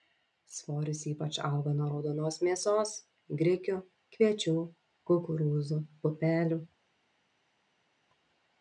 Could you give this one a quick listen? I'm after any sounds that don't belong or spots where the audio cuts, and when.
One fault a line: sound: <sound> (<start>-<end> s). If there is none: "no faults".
no faults